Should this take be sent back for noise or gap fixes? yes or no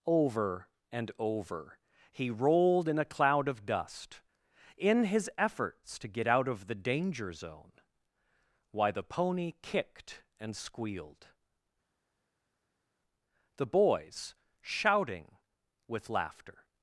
no